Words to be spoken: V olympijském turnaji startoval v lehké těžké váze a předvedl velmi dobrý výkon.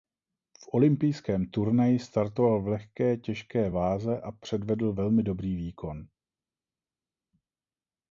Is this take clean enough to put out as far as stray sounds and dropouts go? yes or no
yes